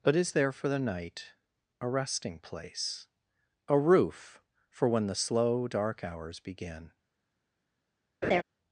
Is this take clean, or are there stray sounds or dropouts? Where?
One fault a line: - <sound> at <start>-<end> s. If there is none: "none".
- laugh at 8.2-8.4 s